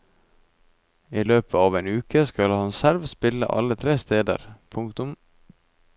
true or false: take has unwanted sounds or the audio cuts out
false